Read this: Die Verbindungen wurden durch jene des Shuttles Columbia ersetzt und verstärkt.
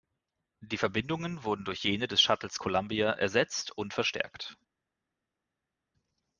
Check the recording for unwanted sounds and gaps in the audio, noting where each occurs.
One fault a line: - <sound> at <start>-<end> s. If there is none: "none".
none